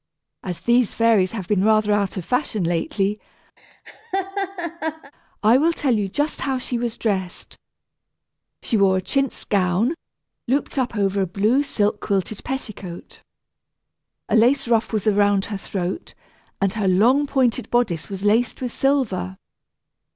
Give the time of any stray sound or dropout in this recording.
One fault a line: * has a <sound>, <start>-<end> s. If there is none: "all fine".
* has a laugh, 3.6-5.1 s